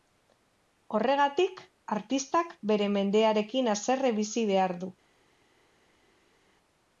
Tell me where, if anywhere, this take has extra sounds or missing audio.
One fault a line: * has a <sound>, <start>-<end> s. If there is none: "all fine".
all fine